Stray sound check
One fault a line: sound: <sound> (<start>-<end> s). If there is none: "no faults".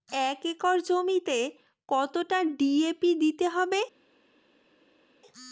no faults